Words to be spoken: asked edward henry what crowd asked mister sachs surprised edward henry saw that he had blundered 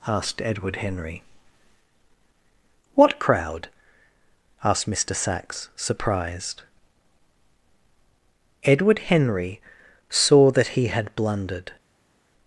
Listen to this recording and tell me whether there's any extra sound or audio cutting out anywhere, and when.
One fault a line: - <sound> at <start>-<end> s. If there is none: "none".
none